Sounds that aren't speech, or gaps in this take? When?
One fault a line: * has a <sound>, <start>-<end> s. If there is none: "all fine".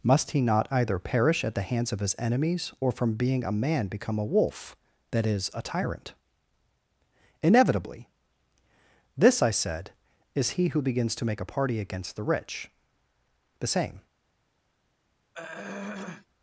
* has a throat clearing, 15.3-16.3 s